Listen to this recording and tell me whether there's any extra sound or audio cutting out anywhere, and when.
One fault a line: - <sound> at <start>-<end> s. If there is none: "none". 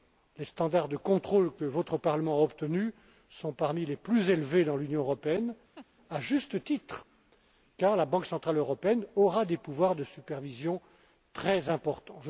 - laugh at 5.8-5.9 s